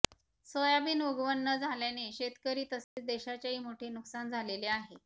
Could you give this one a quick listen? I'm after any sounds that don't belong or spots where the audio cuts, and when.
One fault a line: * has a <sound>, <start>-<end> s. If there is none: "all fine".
* has a dropout, 2.8-3.0 s